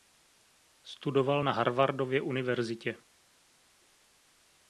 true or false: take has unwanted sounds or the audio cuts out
false